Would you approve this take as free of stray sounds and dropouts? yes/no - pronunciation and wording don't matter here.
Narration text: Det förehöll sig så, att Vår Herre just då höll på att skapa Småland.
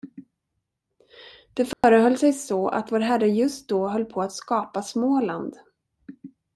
no